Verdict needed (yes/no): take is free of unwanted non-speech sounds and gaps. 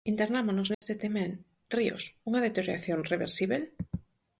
no